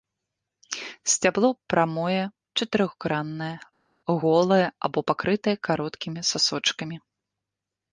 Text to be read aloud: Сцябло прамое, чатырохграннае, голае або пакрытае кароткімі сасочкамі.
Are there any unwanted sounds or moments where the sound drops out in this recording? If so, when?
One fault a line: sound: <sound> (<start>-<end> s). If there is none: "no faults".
no faults